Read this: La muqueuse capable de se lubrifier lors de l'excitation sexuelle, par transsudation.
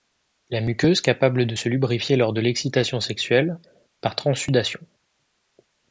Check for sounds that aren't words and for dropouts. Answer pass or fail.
pass